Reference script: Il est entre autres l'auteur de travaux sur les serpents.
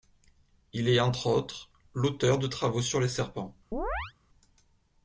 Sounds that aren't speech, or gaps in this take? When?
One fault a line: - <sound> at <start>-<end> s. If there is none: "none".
- chirp at 3.7-4.1 s